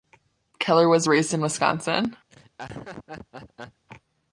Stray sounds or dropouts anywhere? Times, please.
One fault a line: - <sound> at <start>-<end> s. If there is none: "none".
- laugh at 2.3-3.8 s